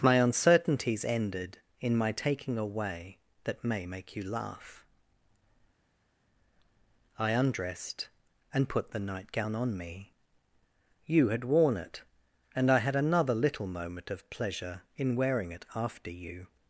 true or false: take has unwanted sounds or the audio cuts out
false